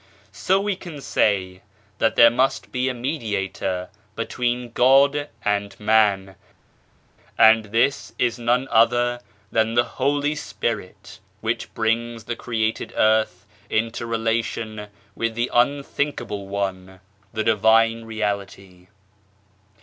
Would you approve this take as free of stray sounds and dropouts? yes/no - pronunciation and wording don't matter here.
yes